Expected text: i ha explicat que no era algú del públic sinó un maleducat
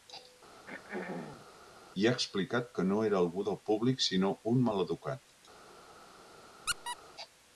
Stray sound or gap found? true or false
true